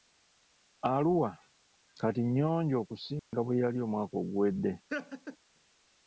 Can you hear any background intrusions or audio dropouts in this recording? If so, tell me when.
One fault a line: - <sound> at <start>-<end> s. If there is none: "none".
- dropout at 3.2-3.3 s
- laugh at 4.9-5.4 s